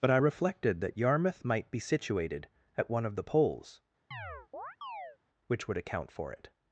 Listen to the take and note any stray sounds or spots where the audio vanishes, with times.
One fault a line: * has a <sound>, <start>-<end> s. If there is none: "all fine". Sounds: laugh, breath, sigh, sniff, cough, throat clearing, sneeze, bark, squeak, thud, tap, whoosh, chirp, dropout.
* has a chirp, 4.1-5.2 s